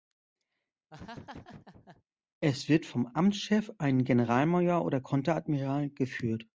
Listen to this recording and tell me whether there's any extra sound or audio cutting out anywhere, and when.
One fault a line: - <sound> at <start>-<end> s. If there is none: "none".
- laugh at 0.9-2.0 s